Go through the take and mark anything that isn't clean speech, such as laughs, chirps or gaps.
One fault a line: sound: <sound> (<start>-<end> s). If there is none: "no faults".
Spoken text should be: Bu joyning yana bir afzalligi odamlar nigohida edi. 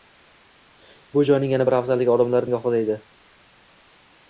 no faults